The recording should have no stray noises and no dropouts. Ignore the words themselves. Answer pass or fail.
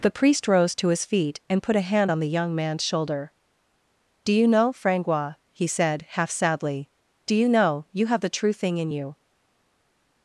pass